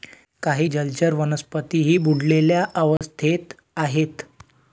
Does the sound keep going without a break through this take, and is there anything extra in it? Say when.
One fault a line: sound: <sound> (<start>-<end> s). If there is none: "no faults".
sound: dropout (3.0-3.0 s)